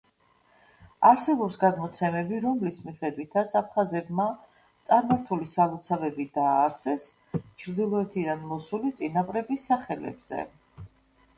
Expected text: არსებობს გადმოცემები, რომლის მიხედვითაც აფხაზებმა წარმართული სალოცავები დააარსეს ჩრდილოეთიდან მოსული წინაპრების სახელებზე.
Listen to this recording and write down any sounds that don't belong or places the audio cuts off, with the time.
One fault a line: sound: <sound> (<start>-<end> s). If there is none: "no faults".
no faults